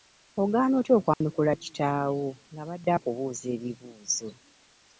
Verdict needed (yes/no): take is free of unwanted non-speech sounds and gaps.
no